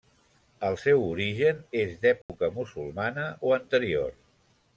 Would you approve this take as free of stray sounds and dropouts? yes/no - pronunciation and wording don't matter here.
no